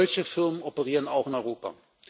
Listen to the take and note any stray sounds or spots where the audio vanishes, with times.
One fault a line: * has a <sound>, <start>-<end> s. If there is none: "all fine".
all fine